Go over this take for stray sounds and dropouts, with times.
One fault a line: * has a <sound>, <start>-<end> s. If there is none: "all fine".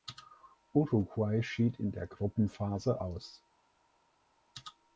all fine